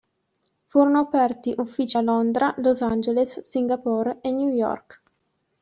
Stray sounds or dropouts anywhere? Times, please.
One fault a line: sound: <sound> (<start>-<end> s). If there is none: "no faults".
no faults